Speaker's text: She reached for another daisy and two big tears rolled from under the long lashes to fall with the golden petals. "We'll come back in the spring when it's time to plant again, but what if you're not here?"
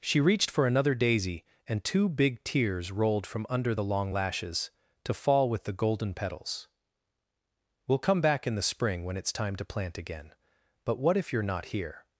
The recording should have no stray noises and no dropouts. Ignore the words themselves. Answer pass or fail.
pass